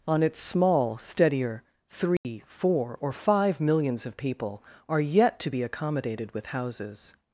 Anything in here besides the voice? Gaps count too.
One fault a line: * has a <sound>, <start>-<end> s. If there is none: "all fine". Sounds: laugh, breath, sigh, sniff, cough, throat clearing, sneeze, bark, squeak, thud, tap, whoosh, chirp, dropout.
* has a dropout, 2.2-2.2 s